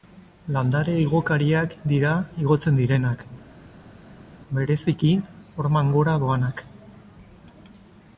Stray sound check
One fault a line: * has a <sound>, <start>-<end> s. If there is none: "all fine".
all fine